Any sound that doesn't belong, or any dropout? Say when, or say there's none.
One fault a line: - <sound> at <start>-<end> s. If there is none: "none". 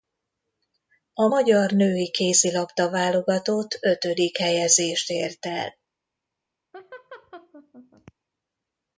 - laugh at 6.7-8.1 s